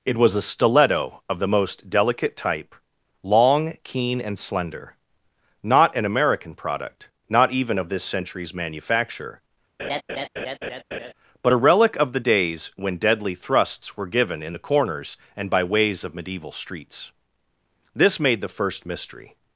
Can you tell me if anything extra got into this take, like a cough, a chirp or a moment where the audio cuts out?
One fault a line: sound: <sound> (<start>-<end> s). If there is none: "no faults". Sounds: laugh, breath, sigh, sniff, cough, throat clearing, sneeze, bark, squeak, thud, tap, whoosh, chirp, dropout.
sound: laugh (9.8-11.1 s)